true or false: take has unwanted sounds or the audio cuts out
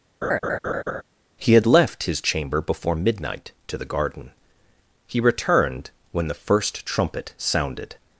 true